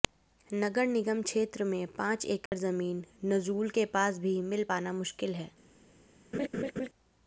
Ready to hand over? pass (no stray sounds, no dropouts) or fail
fail